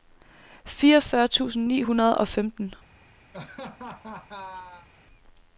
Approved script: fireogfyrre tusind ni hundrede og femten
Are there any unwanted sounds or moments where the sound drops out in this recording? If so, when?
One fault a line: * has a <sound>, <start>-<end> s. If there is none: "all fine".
* has a laugh, 3.3-4.9 s